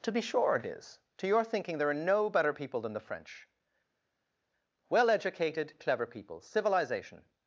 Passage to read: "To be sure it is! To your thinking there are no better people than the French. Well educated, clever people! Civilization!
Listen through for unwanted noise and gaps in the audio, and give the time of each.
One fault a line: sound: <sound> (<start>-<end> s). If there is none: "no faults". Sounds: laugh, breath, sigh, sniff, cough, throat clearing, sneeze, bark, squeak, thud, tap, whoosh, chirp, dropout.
no faults